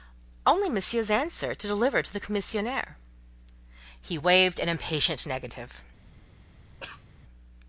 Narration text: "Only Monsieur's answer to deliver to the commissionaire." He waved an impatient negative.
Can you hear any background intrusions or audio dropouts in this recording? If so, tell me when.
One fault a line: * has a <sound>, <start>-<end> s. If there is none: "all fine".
* has a cough, 6.8-7.1 s